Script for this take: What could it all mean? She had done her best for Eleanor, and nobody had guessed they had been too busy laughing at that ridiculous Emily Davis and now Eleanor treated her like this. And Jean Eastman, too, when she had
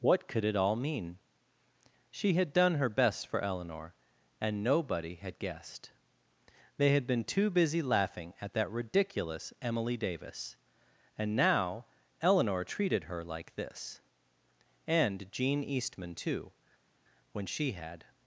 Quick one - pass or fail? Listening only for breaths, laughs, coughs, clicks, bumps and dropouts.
pass